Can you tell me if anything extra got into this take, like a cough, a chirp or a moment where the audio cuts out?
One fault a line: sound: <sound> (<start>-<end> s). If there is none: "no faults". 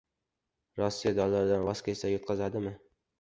no faults